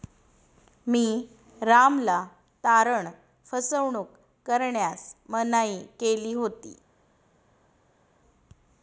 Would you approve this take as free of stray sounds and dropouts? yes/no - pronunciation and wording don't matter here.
yes